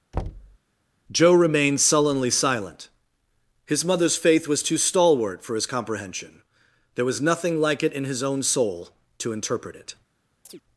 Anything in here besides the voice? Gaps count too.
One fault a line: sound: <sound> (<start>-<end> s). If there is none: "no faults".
sound: thud (0.1-0.6 s)
sound: chirp (10.4-10.6 s)